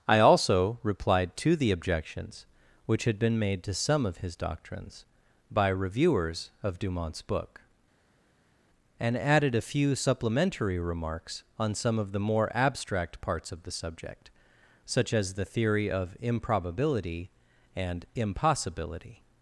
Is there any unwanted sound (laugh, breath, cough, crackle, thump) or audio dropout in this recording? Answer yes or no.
no